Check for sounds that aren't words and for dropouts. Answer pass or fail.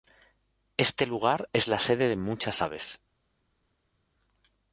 pass